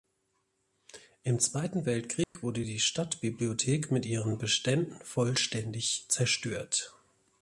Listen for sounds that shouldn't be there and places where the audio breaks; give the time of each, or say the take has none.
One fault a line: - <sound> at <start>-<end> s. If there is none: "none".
- dropout at 2.2-2.4 s